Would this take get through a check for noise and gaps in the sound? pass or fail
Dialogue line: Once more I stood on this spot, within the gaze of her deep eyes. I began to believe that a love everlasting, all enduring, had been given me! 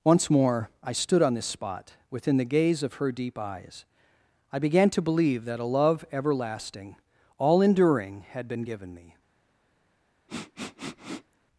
fail